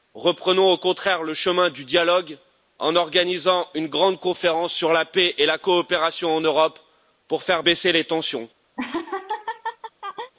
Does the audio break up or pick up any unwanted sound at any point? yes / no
yes